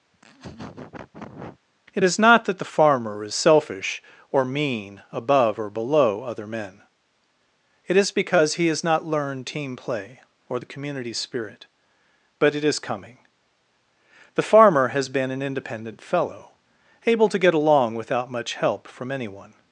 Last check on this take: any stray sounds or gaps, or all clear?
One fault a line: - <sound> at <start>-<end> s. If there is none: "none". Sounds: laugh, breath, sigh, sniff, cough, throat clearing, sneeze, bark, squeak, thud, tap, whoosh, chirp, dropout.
- laugh at 0.1-1.6 s